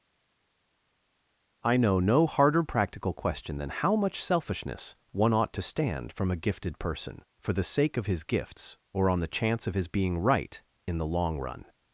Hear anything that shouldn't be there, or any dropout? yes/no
no